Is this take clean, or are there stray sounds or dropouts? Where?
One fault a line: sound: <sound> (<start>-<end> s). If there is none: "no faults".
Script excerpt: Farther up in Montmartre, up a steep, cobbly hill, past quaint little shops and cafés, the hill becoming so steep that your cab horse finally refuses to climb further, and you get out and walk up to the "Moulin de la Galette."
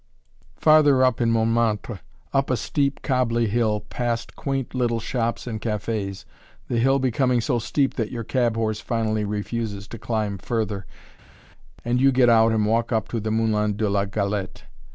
no faults